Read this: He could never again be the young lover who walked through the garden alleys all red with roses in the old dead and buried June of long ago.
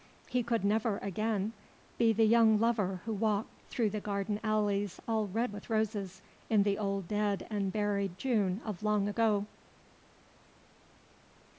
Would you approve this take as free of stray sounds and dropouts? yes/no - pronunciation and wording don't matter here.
yes